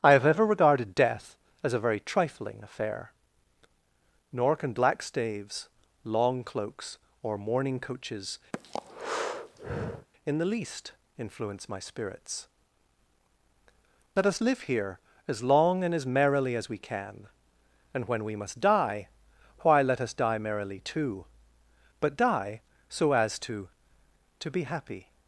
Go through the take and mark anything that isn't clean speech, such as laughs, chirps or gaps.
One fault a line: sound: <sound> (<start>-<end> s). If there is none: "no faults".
sound: breath (8.5-10.1 s)